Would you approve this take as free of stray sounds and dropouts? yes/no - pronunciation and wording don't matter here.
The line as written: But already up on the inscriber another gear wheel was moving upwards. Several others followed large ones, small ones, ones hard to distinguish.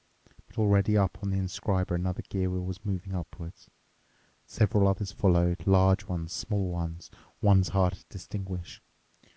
yes